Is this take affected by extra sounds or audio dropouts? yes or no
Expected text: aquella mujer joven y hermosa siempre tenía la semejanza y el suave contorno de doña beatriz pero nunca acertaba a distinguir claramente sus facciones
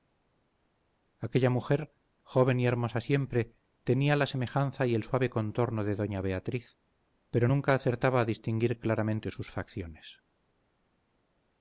no